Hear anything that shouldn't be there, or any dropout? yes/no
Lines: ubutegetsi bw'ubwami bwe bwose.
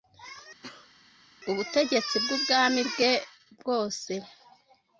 yes